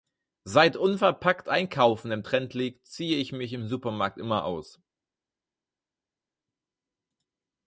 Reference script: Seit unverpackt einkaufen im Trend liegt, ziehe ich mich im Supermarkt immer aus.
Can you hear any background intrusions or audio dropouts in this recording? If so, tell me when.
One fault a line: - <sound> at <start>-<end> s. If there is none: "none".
none